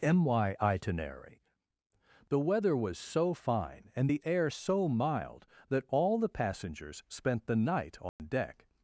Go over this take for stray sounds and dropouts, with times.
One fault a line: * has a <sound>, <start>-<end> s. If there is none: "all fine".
* has a dropout, 8.1-8.2 s